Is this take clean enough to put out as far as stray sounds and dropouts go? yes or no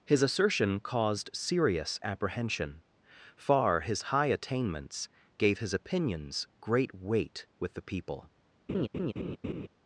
no